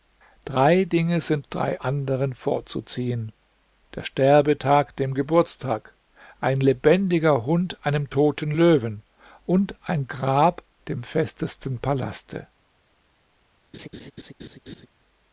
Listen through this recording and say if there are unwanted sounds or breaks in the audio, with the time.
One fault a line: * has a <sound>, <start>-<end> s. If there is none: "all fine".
* has a laugh, 13.7-14.9 s